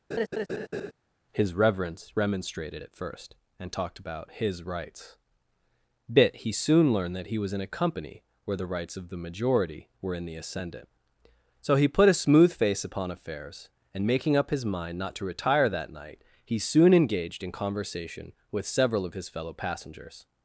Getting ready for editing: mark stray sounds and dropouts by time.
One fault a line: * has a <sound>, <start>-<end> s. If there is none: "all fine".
* has a laugh, 0.1-0.9 s